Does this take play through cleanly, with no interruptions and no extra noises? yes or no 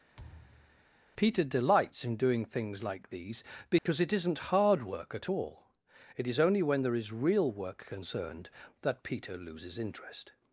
no